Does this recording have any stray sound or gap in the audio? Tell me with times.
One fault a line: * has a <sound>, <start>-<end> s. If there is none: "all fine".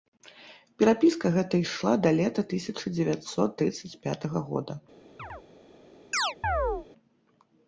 * has a chirp, 5.2-5.4 s
* has a chirp, 6.1-6.9 s